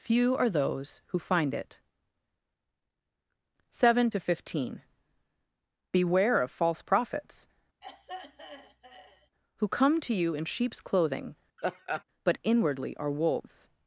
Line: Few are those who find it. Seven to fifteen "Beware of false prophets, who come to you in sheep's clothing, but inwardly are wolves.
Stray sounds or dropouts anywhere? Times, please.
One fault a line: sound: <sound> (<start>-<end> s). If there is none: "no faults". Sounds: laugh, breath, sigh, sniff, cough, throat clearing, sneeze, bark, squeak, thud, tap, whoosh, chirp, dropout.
sound: throat clearing (7.8-9.3 s)
sound: laugh (11.6-12.0 s)